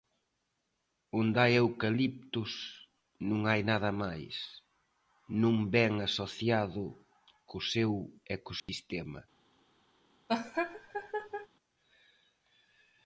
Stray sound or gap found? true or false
true